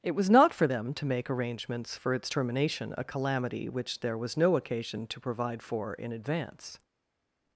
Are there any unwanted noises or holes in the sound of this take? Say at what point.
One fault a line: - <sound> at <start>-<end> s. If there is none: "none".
none